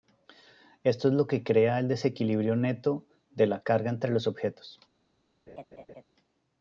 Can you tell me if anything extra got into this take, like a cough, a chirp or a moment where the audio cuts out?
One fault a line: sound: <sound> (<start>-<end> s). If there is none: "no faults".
sound: laugh (5.5-6.0 s)